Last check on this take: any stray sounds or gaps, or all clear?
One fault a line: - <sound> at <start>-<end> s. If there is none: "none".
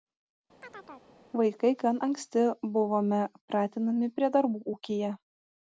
- chirp at 0.6-1.1 s